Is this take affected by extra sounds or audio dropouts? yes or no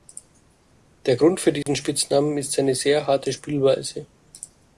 yes